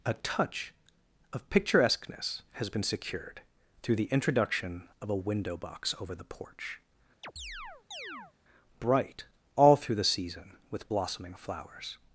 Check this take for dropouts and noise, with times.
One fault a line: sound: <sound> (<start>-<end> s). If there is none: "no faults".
sound: chirp (7.2-8.3 s)